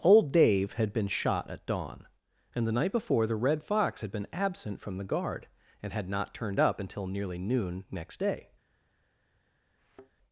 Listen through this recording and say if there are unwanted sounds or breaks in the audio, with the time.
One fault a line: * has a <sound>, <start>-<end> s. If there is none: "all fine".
* has a thud, 9.8-10.1 s